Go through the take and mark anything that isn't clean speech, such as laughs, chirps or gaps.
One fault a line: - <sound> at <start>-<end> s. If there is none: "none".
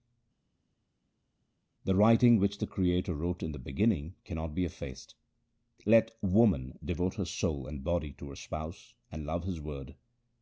none